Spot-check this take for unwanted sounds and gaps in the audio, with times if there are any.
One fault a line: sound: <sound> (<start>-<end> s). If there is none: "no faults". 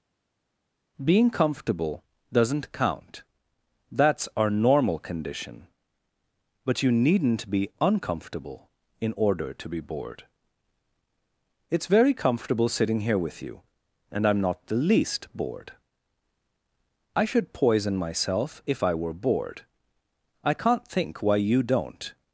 no faults